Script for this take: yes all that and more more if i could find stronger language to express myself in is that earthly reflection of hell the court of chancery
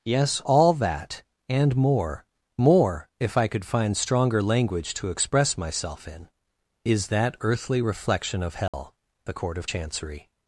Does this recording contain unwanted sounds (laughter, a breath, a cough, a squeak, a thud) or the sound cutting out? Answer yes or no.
yes